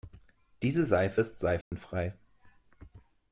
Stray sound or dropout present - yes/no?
yes